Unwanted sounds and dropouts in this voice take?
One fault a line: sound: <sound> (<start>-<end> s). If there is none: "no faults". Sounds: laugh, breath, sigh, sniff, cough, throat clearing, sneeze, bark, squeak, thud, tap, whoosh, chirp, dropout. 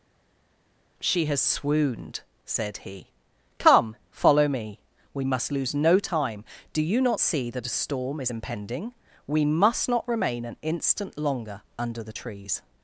no faults